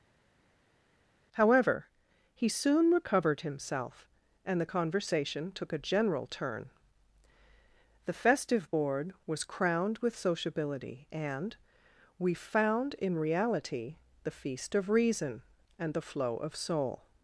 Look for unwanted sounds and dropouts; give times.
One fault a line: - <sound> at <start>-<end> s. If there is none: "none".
none